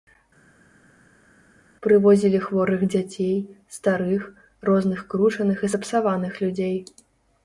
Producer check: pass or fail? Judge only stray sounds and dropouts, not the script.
pass